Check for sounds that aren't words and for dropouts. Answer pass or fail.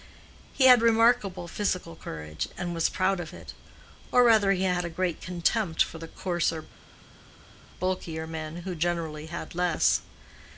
pass